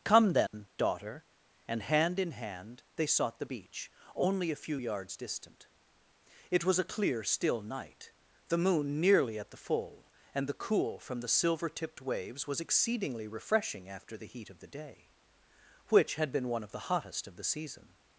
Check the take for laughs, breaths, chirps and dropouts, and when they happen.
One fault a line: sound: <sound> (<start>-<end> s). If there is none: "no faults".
sound: dropout (0.5-0.5 s)